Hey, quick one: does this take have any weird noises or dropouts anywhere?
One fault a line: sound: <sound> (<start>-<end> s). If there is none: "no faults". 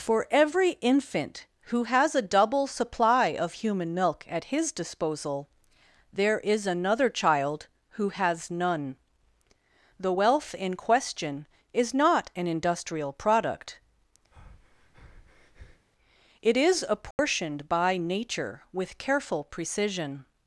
sound: breath (14.3-15.9 s)
sound: dropout (17.1-17.2 s)